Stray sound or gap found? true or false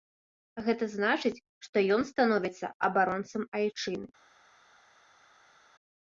false